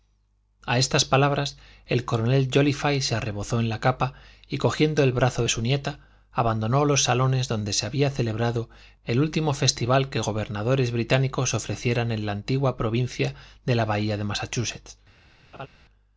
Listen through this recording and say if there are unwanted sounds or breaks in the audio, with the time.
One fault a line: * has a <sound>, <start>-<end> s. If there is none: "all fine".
* has a laugh, 15.5-15.7 s